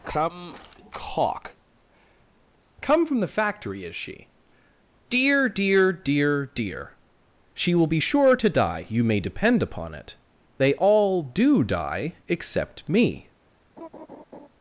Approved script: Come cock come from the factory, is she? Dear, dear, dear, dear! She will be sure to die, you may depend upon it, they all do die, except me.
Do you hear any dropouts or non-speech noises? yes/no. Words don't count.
yes